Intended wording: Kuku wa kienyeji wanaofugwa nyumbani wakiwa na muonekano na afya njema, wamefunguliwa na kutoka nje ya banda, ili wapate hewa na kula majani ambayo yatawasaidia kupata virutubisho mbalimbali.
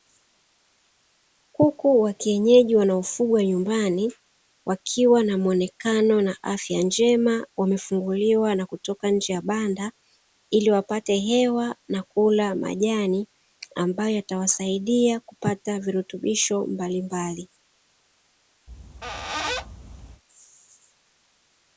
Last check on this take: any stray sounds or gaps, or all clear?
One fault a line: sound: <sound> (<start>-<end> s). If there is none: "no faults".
sound: squeak (18.7-20.2 s)